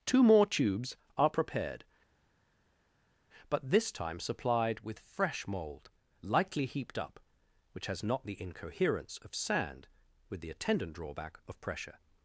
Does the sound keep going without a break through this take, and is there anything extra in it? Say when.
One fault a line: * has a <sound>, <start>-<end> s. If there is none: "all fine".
all fine